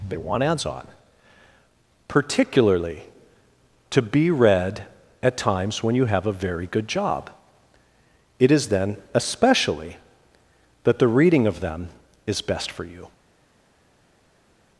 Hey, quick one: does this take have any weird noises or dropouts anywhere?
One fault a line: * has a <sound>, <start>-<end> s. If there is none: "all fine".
all fine